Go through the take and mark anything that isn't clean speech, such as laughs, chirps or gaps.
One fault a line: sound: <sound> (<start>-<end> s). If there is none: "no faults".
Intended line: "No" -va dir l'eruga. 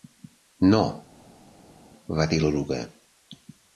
no faults